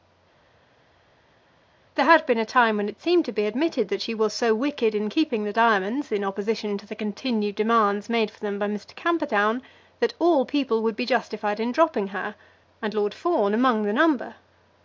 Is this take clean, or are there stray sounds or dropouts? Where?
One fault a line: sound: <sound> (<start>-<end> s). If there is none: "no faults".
no faults